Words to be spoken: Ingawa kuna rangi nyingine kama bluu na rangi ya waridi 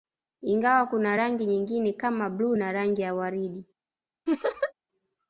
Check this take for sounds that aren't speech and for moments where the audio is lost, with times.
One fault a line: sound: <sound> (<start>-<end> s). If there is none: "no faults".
sound: laugh (4.3-4.7 s)